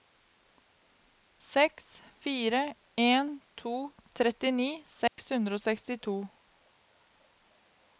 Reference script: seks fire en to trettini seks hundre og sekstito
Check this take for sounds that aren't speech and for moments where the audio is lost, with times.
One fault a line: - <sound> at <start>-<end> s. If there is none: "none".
- dropout at 5.1-5.2 s